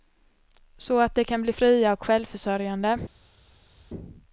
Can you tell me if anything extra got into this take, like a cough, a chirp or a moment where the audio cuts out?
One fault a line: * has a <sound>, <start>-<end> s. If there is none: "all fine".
all fine